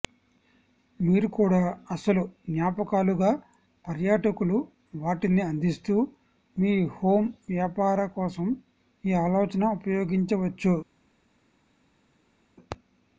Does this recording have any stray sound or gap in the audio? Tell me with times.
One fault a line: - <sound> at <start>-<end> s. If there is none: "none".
none